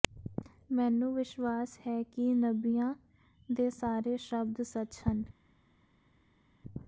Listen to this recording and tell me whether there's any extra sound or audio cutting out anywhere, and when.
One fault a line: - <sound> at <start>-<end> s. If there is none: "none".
none